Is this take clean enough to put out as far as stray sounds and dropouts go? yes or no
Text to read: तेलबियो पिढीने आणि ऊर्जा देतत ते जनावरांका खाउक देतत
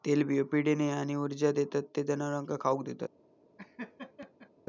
no